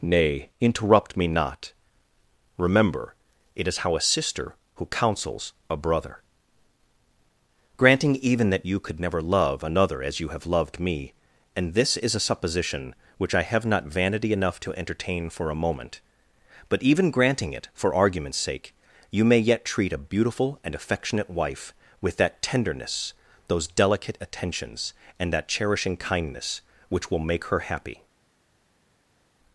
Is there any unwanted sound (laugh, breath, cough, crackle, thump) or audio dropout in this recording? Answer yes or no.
no